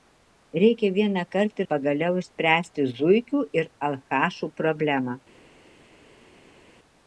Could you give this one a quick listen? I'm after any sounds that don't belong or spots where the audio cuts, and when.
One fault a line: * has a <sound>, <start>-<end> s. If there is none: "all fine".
all fine